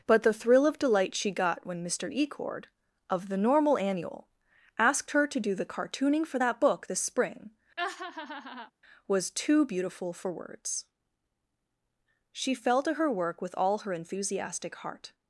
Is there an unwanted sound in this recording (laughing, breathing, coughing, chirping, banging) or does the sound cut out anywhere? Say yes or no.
yes